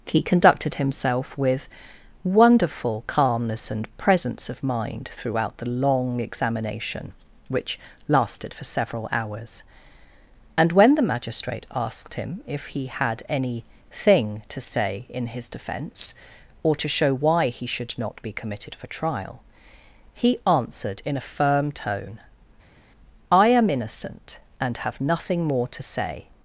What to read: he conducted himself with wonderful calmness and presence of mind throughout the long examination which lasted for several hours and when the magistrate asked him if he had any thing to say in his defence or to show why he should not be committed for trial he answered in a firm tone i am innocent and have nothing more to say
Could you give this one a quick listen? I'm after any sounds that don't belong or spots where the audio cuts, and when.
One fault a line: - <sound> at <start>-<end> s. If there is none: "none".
none